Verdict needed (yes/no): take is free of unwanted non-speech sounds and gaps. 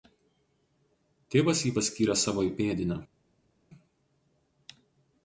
yes